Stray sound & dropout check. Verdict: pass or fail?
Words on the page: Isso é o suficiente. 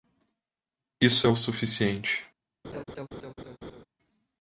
fail